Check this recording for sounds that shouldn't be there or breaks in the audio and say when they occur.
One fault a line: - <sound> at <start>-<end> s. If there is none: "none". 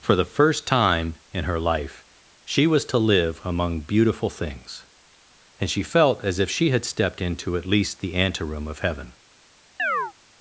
- chirp at 9.8-10.1 s